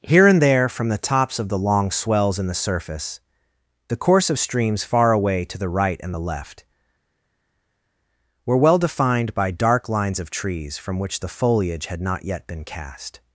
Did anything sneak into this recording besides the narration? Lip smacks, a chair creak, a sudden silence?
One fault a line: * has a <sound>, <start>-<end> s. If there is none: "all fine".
all fine